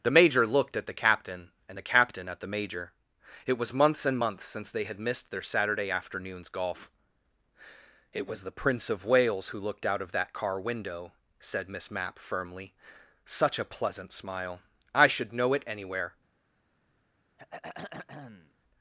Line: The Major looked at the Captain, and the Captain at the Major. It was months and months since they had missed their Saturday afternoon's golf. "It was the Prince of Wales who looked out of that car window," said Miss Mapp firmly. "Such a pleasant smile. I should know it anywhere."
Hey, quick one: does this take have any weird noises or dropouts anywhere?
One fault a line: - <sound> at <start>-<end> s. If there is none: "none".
- throat clearing at 17.4-18.5 s